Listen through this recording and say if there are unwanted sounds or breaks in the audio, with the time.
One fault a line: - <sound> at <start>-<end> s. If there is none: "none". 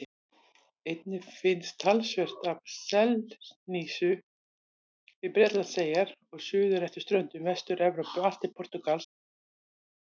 none